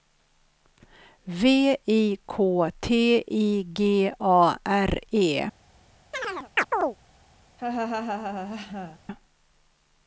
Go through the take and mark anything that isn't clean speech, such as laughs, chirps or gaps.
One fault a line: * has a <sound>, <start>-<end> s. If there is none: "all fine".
* has a chirp, 6.1-7.0 s
* has a laugh, 7.6-9.0 s